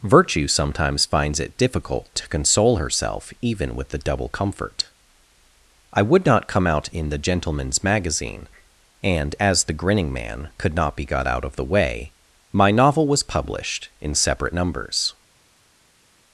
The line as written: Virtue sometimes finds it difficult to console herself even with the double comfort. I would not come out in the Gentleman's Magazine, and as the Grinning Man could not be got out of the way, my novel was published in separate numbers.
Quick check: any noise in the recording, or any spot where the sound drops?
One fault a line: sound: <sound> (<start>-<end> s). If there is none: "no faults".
no faults